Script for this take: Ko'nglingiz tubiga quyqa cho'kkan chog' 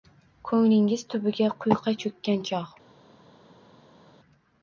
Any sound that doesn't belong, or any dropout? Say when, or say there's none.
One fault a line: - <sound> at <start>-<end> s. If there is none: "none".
none